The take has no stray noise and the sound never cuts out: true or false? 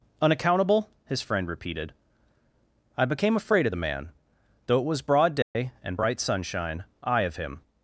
false